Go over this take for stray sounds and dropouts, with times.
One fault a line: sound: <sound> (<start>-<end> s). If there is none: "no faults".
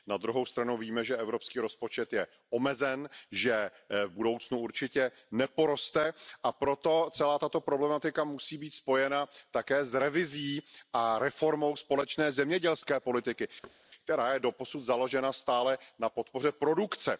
sound: thud (13.6-13.8 s)